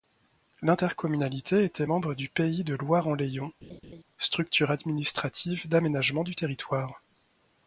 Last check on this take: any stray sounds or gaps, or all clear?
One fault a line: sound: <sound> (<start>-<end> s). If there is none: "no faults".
sound: laugh (3.6-4.0 s)